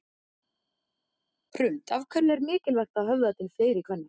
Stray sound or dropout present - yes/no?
no